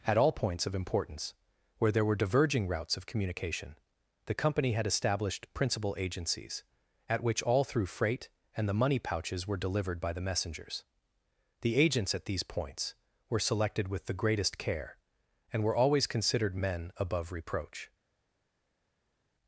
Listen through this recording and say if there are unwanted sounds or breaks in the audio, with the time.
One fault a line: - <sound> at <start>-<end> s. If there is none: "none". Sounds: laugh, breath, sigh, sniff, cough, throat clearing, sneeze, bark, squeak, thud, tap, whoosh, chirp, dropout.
none